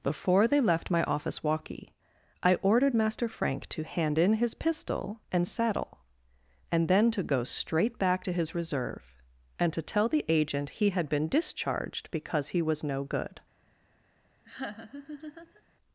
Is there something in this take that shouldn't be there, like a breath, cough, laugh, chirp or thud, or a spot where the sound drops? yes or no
yes